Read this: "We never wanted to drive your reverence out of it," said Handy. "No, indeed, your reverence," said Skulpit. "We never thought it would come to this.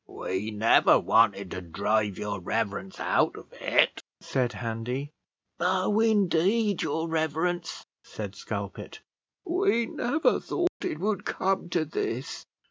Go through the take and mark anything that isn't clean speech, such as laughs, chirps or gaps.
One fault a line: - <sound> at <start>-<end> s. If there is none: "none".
- dropout at 10.7-10.8 s